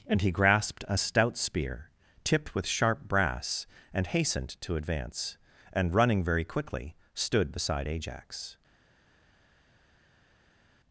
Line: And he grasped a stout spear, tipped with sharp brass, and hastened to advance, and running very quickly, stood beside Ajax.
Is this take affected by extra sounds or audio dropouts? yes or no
no